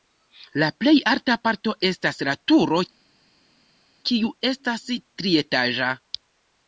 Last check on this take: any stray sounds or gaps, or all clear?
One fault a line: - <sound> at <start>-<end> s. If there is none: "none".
none